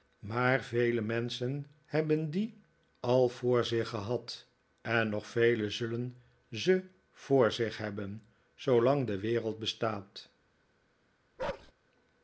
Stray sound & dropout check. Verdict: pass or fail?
fail